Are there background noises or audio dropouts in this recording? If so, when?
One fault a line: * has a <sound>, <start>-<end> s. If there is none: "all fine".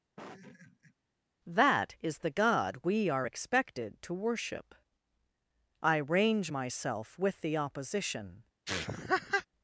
* has a laugh, 0.2-0.9 s
* has a laugh, 8.7-9.5 s